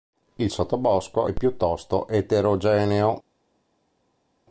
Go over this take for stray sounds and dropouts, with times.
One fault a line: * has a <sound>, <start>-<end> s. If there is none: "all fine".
all fine